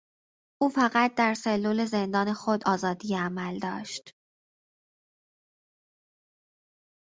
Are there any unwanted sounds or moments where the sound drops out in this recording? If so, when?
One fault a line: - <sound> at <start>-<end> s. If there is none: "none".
none